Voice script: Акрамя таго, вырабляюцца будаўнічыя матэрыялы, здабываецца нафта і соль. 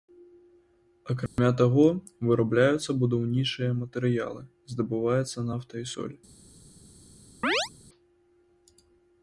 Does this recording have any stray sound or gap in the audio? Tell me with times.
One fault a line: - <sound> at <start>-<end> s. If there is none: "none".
- dropout at 1.3-1.4 s
- chirp at 7.4-7.7 s